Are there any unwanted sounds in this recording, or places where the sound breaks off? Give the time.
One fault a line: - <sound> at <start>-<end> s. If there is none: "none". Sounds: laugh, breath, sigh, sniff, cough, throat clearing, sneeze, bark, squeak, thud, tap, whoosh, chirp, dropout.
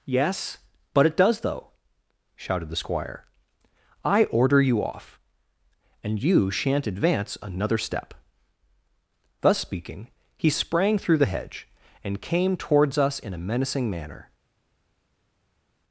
none